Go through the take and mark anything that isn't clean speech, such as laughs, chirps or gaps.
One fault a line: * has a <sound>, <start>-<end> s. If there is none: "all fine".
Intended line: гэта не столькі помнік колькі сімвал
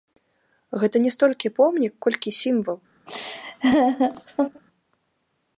* has a laugh, 3.1-4.6 s